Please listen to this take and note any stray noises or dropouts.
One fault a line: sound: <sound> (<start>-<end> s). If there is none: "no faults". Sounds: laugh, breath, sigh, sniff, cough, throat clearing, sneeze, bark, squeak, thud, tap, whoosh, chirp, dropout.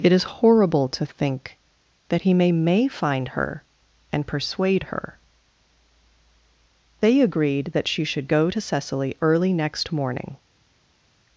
no faults